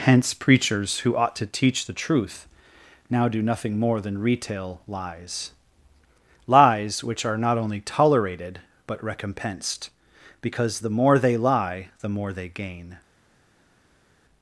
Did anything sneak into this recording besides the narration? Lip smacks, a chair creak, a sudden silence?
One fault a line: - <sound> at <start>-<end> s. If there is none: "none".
none